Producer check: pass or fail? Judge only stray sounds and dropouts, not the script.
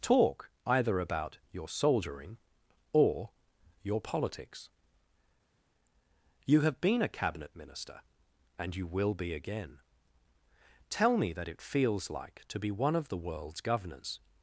pass